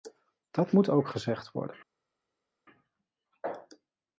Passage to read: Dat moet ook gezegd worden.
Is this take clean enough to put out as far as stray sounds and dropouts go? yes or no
yes